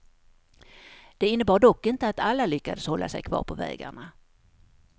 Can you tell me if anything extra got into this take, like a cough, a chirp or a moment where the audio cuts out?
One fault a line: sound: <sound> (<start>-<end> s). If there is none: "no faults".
no faults